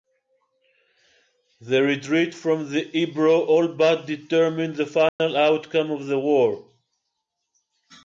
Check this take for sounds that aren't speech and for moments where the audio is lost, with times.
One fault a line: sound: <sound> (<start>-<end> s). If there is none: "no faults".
sound: dropout (5.1-5.2 s)